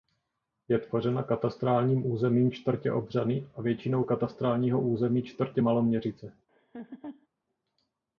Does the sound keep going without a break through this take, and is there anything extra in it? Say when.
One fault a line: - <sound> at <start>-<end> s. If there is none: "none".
- laugh at 6.5-7.3 s